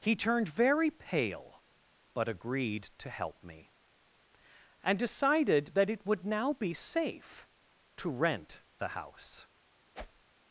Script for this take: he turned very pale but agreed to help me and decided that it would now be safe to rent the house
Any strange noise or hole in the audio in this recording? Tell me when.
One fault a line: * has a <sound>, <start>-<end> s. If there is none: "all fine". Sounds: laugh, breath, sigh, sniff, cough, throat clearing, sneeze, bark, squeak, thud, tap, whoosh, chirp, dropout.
* has a whoosh, 9.9-10.2 s